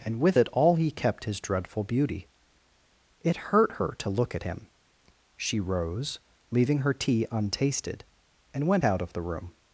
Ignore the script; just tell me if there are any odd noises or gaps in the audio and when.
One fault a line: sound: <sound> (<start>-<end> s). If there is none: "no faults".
no faults